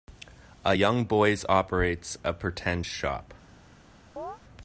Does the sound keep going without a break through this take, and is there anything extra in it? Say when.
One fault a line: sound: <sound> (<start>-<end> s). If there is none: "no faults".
sound: chirp (4.2-4.4 s)